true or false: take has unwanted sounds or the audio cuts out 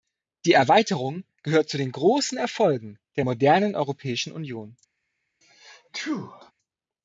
true